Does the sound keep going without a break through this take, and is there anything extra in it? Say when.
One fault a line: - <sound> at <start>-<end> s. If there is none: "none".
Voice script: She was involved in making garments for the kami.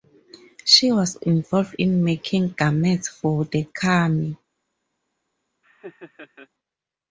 - laugh at 5.6-6.5 s